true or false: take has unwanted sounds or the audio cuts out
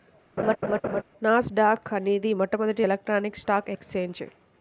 true